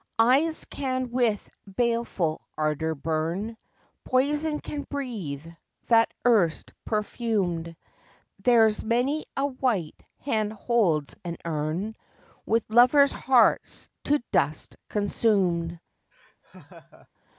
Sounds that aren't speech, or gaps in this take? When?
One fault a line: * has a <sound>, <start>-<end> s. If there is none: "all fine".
* has a laugh, 16.1-17.1 s